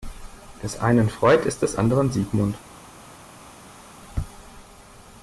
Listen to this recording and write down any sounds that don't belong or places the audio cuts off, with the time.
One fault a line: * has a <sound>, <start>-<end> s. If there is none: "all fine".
all fine